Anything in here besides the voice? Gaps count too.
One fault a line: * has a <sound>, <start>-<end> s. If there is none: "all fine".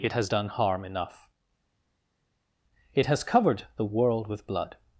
all fine